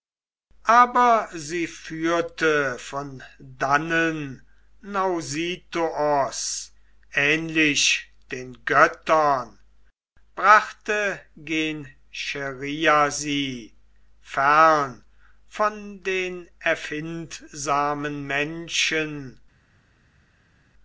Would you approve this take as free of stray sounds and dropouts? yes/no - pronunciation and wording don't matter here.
yes